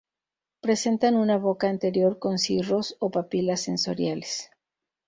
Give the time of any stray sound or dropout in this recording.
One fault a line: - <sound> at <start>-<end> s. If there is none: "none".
none